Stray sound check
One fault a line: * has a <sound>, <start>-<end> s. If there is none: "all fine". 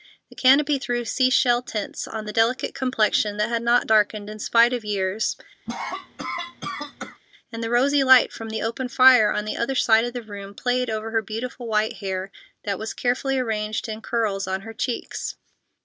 * has a cough, 5.7-7.2 s